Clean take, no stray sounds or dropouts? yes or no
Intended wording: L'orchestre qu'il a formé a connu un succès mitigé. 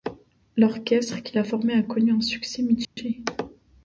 no